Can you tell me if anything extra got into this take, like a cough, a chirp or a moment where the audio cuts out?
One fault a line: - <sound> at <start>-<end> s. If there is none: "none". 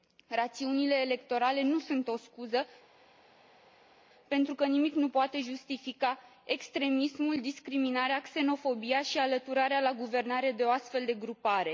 none